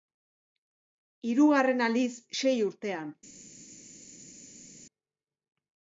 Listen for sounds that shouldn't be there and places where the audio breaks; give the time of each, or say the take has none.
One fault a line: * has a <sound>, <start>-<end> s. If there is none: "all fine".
all fine